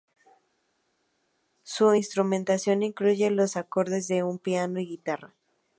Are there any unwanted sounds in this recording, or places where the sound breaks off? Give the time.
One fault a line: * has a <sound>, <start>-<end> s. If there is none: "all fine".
all fine